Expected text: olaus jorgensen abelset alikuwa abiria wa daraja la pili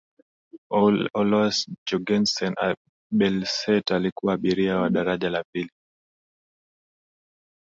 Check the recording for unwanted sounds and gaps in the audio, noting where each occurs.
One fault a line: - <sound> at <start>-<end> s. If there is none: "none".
none